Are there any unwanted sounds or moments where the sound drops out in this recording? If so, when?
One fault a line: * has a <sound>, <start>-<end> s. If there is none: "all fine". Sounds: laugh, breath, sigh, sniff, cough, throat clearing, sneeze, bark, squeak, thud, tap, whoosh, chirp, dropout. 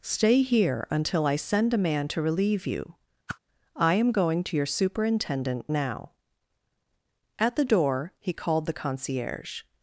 * has a whoosh, 3.3-3.4 s